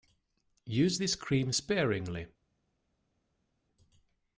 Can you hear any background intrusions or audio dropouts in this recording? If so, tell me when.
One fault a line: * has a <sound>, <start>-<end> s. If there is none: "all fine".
all fine